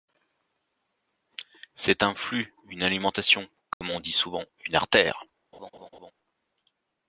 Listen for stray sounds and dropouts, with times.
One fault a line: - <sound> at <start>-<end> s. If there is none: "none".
- dropout at 3.7-3.8 s
- laugh at 5.5-6.1 s